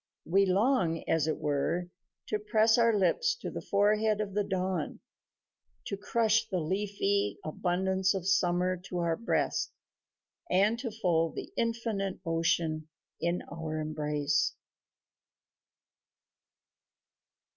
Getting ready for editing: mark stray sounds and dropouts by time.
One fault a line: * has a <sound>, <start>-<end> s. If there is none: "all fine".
all fine